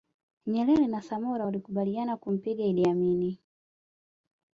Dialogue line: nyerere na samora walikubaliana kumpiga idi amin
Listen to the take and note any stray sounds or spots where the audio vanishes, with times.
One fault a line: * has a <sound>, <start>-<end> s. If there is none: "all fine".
all fine